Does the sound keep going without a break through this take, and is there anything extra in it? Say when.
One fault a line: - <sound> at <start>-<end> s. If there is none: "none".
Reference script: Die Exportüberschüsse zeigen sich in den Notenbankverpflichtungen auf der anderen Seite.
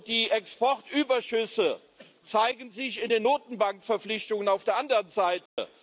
- dropout at 5.5-5.6 s